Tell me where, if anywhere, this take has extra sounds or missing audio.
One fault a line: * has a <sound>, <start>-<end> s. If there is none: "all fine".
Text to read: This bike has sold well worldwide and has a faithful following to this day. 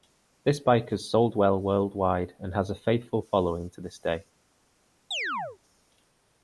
* has a chirp, 5.1-5.6 s